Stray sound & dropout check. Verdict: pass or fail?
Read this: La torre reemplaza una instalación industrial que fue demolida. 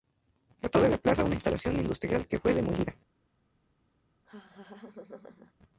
fail